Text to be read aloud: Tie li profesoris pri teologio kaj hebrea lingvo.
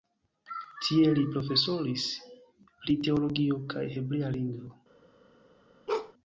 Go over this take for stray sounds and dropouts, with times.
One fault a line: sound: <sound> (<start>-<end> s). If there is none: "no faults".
sound: bark (5.9-6.1 s)